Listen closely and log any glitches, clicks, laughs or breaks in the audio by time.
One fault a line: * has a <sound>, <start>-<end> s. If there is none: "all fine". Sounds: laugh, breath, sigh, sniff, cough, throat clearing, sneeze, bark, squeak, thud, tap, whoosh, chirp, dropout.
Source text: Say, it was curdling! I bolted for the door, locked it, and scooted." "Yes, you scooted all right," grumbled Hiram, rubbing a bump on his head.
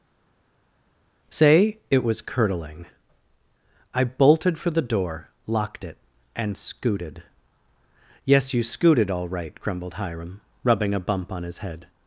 all fine